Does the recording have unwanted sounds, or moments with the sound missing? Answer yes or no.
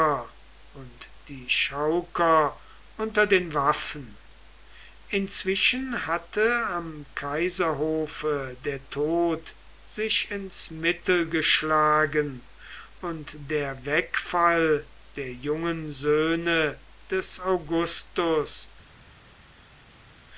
no